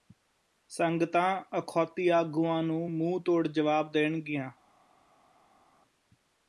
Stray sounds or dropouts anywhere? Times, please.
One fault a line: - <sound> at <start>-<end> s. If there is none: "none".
none